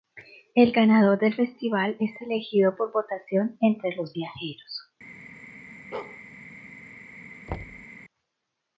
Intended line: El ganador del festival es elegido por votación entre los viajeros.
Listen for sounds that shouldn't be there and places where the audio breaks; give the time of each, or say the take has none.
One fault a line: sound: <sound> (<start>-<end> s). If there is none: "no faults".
sound: bark (5.9-6.2 s)
sound: thud (7.5-7.9 s)